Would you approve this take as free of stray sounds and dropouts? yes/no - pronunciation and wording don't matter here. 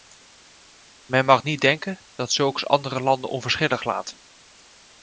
yes